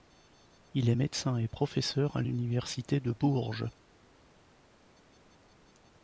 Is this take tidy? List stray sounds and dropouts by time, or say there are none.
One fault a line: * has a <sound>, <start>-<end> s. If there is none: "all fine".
all fine